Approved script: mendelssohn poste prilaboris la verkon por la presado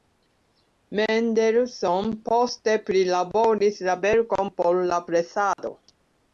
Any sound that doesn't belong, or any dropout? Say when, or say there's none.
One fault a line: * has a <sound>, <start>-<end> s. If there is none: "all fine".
* has a dropout, 5.5-5.6 s